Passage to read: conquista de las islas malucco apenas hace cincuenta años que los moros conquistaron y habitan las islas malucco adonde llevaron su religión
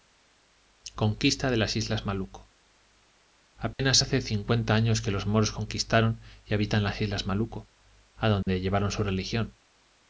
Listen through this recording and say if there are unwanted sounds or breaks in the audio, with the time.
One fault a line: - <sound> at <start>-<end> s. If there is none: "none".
- dropout at 3.7-3.8 s
- dropout at 8.4-8.5 s